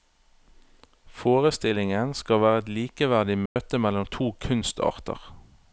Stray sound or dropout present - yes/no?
yes